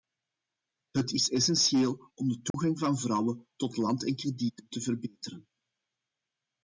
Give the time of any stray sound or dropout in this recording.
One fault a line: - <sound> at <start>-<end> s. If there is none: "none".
- dropout at 2.5-2.5 s